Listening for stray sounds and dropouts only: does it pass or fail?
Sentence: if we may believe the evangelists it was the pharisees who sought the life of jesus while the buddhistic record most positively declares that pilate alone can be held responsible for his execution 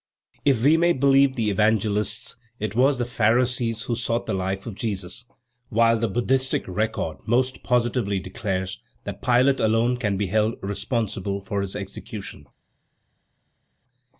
pass